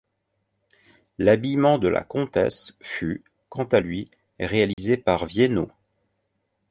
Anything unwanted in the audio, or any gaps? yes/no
yes